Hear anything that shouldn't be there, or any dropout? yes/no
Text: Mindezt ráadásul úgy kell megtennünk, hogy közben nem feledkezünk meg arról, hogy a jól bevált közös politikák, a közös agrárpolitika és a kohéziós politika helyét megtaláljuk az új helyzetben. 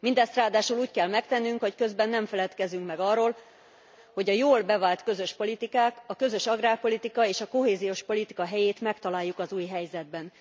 no